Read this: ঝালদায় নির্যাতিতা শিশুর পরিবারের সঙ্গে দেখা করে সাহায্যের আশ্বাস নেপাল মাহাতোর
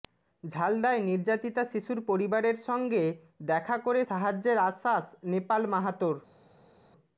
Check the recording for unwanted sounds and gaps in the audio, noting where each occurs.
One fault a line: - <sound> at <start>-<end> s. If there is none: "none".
none